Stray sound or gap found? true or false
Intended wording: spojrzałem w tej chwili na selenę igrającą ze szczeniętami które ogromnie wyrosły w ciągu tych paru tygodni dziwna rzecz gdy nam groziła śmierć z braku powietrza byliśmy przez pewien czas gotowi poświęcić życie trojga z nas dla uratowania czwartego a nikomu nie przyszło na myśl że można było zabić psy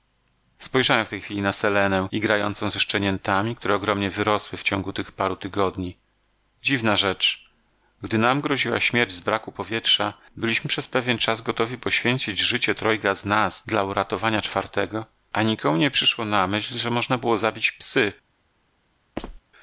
true